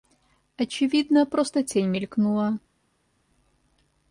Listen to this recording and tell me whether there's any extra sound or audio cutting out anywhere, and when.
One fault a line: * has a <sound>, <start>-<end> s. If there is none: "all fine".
all fine